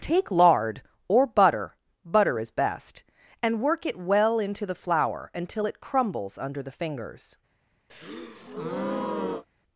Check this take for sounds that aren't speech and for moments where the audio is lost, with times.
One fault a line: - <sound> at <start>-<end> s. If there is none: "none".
- breath at 7.9-9.4 s